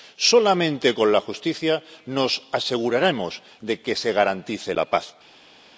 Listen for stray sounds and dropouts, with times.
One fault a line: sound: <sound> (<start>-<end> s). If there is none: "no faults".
no faults